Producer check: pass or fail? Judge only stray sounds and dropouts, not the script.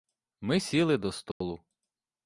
fail